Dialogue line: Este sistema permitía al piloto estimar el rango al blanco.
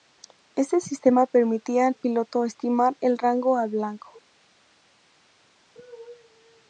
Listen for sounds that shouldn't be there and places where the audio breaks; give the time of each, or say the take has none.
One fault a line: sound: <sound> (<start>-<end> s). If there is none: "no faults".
no faults